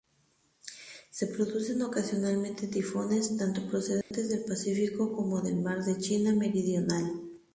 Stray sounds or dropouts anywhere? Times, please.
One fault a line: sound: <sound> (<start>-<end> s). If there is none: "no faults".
sound: dropout (4.0-4.1 s)